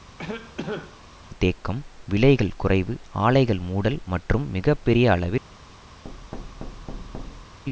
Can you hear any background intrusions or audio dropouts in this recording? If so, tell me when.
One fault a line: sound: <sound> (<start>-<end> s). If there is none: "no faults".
sound: cough (0.2-1.0 s)
sound: thud (6.0-7.6 s)